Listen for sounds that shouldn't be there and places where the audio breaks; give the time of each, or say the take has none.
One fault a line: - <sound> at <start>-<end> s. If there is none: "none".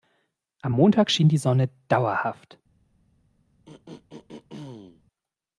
- throat clearing at 3.7-5.0 s